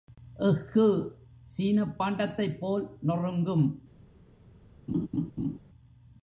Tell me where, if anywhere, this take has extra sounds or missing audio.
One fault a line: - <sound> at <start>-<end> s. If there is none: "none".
- laugh at 4.9-5.6 s